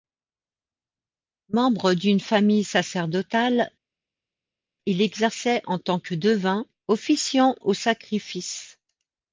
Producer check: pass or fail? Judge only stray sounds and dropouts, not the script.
pass